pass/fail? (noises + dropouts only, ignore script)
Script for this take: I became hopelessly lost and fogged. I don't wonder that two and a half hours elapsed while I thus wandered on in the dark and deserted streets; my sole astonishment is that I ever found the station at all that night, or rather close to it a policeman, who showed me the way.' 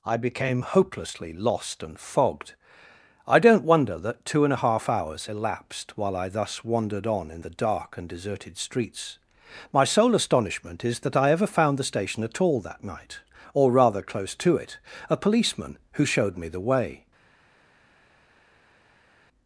pass